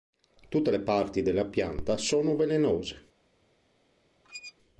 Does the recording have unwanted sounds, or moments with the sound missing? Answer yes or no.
yes